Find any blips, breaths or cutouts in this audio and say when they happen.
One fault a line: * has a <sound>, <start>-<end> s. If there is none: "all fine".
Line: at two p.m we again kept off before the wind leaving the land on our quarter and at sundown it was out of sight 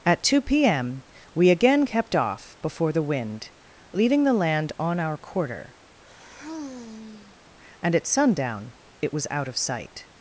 * has a sigh, 6.0-7.4 s